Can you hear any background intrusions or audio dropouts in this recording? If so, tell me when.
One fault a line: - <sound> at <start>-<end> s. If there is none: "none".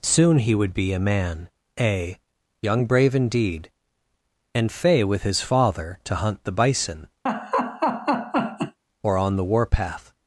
- laugh at 7.3-8.8 s